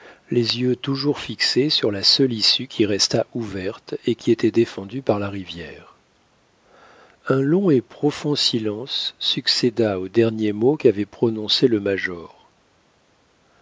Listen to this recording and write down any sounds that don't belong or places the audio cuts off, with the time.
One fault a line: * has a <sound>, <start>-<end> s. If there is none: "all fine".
all fine